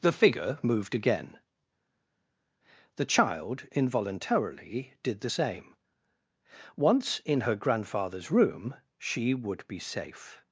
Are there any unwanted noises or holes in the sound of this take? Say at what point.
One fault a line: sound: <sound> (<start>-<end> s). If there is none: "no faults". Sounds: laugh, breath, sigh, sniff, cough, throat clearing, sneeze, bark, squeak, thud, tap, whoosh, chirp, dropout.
no faults